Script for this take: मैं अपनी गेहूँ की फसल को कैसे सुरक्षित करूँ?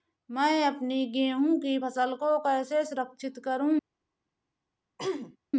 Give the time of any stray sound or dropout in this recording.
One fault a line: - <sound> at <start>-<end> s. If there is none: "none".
- throat clearing at 5.0-5.4 s